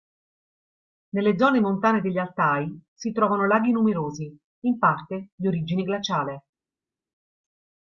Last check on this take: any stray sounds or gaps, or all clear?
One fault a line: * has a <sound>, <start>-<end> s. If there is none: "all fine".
all fine